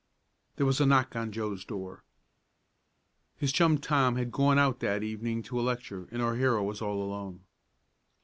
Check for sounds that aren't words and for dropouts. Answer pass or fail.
pass